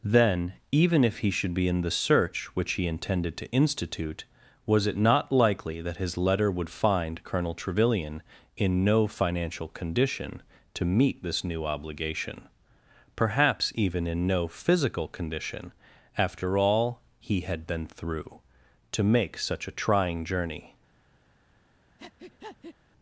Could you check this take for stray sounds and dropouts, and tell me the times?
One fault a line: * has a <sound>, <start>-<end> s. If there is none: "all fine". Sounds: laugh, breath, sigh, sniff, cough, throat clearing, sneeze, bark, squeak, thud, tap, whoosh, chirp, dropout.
* has a breath, 22.0-22.8 s